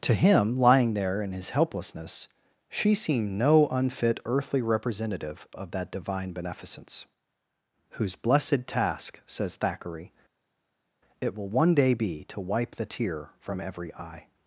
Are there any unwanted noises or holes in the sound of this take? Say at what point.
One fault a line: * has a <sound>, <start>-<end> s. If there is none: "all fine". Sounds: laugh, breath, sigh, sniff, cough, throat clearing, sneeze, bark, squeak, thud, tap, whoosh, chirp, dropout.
all fine